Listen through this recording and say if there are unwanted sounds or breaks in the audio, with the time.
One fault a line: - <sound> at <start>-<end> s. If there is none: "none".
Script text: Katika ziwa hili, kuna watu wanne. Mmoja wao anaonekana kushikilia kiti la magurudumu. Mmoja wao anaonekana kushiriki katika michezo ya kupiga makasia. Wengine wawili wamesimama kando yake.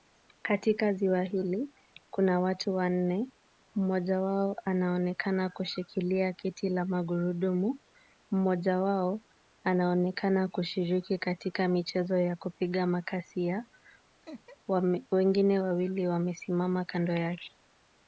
- laugh at 14.2-14.6 s